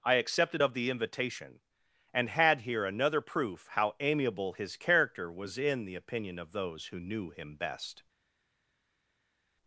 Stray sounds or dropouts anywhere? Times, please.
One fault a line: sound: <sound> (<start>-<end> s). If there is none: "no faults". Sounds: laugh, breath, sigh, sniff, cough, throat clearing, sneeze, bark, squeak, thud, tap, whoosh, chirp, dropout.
no faults